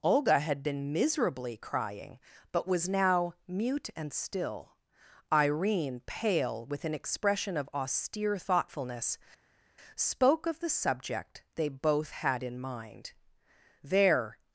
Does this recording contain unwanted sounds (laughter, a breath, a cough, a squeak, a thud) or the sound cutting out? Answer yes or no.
no